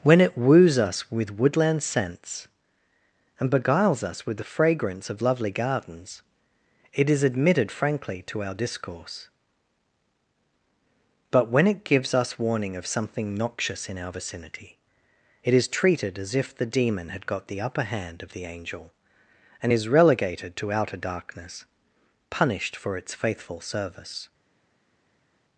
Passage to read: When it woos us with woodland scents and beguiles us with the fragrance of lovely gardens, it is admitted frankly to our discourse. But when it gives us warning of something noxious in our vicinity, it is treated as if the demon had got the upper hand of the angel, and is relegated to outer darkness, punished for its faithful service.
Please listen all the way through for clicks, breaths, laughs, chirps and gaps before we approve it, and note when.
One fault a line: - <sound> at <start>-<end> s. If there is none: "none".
none